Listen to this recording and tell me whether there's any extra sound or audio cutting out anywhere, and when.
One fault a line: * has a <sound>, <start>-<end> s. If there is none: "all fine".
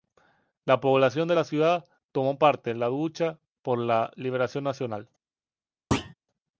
* has a thud, 5.9-6.1 s